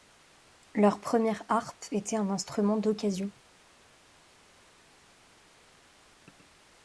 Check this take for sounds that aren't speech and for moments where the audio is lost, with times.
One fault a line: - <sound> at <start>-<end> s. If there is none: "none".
none